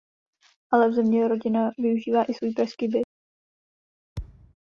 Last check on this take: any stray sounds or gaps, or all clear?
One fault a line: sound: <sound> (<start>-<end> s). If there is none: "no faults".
sound: thud (4.2-4.5 s)